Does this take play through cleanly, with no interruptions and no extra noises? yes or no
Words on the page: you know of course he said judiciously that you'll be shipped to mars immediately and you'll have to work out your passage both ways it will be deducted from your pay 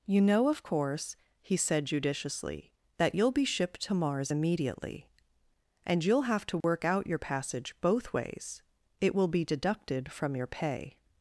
no